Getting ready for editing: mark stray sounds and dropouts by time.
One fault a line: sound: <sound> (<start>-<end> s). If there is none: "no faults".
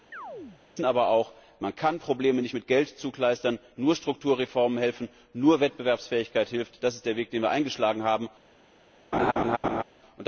sound: chirp (0.1-0.6 s)
sound: laugh (9.1-9.8 s)